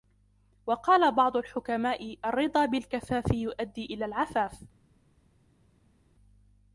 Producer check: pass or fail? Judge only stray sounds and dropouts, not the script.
pass